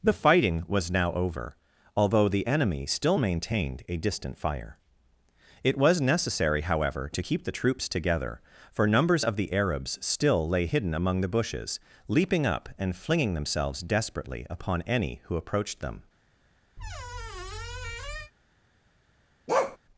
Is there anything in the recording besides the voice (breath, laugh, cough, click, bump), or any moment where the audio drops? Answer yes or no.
yes